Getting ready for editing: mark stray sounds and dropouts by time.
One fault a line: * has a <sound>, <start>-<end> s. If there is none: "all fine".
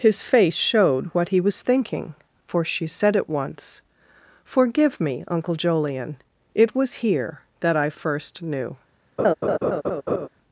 * has a laugh, 9.2-10.3 s